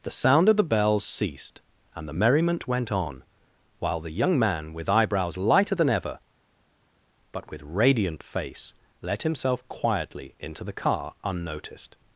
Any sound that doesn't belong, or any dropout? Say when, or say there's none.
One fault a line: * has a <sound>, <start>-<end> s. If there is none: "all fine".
all fine